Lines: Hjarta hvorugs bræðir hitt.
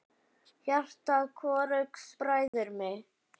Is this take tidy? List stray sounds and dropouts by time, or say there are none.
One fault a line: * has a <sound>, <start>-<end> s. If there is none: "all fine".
* has a dropout, 2.5-2.5 s